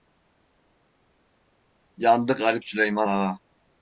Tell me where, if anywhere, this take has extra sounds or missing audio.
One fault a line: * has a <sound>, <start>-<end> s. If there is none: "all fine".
all fine